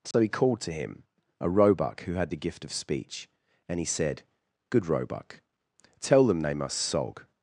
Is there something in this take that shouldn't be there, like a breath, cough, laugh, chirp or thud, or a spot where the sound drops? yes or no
yes